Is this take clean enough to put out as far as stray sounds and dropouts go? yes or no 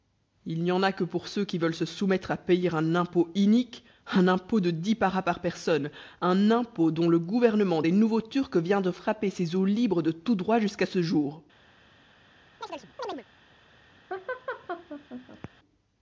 no